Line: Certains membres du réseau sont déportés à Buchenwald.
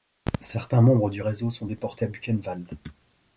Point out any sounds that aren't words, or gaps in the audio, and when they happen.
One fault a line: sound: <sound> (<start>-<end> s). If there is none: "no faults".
no faults